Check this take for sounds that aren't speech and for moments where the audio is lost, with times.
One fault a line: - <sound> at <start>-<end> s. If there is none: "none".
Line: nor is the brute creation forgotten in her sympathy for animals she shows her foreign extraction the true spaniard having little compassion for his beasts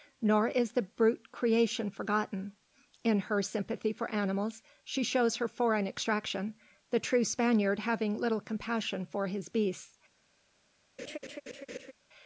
- laugh at 11.0-11.9 s